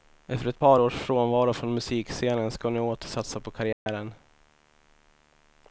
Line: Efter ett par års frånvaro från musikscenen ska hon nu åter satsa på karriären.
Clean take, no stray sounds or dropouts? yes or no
no